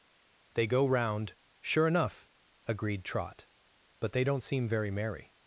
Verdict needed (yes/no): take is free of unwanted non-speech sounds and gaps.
yes